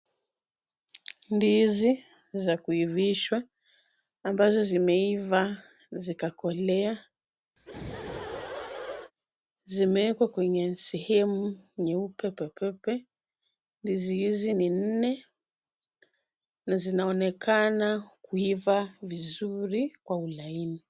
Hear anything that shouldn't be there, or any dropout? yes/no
yes